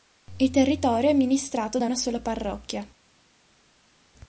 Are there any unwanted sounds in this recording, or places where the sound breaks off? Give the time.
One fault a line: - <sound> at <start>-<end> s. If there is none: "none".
none